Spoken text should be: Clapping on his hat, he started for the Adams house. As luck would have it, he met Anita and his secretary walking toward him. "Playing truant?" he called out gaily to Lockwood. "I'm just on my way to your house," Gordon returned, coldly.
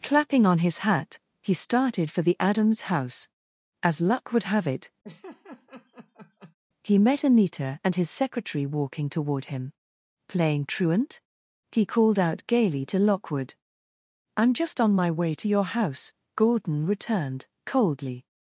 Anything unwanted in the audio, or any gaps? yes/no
yes